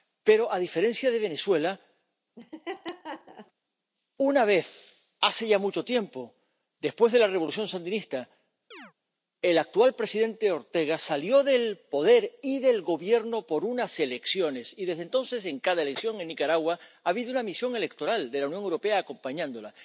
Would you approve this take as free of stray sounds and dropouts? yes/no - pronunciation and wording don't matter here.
no